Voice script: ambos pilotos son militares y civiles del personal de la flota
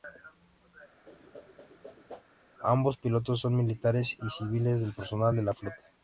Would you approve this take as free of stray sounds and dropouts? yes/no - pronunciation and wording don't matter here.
no